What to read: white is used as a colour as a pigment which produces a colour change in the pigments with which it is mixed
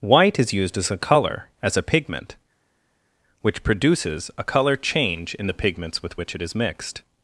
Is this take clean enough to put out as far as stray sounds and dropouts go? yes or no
yes